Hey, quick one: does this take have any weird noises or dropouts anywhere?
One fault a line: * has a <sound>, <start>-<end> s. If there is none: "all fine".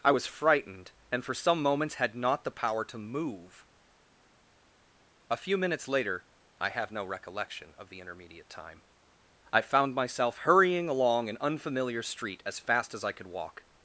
all fine